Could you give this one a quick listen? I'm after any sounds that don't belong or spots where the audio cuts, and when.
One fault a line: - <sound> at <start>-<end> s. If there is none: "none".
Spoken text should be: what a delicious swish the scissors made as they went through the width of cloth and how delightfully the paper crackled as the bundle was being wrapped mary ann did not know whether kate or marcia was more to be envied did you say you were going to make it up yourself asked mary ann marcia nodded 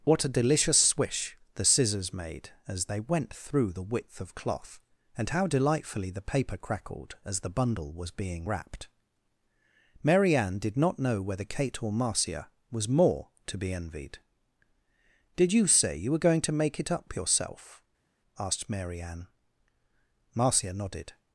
none